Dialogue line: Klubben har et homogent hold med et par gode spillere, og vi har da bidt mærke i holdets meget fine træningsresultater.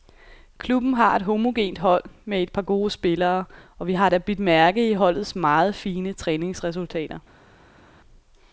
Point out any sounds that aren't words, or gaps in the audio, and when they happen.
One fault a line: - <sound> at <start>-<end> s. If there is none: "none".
none